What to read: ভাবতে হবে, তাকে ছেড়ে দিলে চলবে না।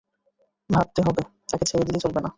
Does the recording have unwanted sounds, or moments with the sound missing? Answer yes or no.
no